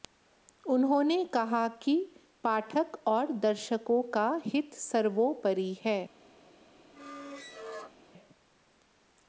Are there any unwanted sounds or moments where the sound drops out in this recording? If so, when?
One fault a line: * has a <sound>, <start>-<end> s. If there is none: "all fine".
* has a squeak, 6.9-8.0 s